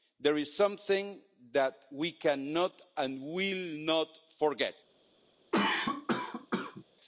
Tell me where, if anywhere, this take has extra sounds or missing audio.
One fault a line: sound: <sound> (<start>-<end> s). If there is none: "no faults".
sound: cough (5.5-6.8 s)